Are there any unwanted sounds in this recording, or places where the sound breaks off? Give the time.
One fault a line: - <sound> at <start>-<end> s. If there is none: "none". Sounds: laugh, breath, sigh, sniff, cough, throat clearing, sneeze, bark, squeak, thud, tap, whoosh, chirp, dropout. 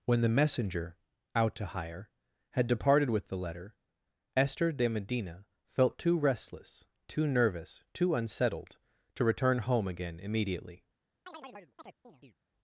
- chirp at 11.3-12.4 s